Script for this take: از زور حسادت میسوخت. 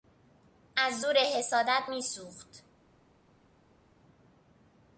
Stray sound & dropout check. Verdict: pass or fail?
pass